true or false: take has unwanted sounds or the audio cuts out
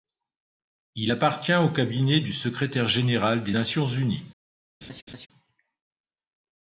true